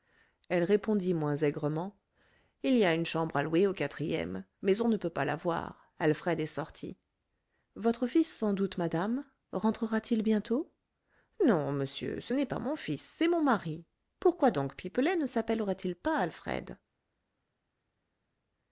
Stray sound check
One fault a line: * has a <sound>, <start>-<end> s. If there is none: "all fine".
all fine